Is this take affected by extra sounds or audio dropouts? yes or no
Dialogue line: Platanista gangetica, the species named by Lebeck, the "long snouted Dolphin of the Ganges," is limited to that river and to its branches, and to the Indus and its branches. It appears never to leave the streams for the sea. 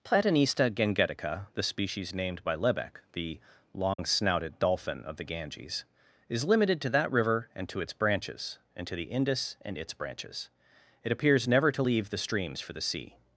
yes